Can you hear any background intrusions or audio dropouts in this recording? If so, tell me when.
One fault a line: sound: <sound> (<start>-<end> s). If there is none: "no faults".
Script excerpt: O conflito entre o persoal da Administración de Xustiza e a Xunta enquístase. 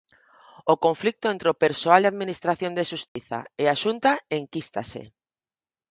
sound: dropout (3.1-3.2 s)